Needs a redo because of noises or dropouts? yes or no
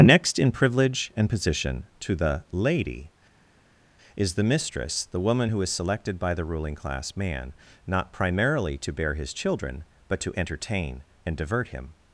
no